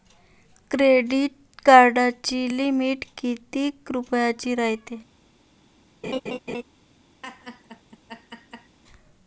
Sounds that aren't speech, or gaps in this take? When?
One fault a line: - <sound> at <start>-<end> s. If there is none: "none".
- laugh at 6.0-6.6 s
- laugh at 7.2-8.8 s